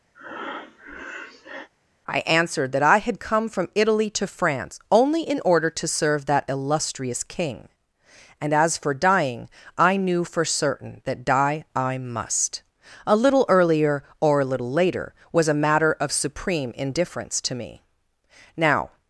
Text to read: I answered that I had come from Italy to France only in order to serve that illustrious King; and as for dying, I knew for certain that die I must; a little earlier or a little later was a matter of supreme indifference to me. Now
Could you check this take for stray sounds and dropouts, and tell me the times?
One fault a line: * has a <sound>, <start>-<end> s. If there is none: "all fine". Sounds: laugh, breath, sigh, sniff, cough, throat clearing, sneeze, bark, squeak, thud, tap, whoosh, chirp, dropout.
* has a breath, 0.1-1.7 s